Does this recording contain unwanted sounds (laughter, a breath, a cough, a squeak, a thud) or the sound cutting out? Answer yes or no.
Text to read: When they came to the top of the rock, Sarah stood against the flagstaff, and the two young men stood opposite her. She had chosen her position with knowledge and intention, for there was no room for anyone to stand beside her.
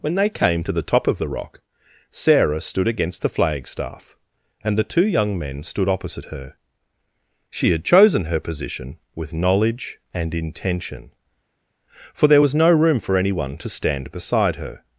no